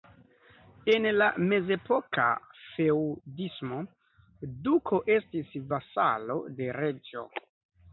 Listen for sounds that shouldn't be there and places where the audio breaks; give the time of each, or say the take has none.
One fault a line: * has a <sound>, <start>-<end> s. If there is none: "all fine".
all fine